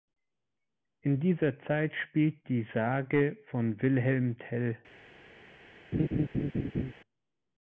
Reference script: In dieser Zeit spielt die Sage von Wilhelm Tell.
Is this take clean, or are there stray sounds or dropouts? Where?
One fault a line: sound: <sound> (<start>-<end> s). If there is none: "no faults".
sound: laugh (5.9-6.9 s)